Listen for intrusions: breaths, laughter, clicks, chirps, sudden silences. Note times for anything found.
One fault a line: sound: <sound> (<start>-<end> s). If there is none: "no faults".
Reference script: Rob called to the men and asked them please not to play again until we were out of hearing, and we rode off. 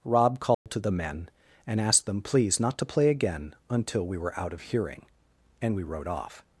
sound: dropout (0.5-0.7 s)